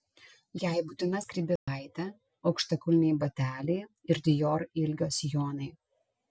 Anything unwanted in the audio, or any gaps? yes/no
yes